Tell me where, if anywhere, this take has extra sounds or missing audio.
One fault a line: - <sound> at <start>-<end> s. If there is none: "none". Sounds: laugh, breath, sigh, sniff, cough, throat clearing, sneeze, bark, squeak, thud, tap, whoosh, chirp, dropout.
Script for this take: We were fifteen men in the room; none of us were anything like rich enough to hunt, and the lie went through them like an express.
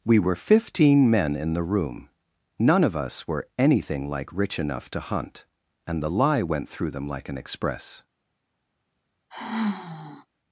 - sigh at 9.3-10.3 s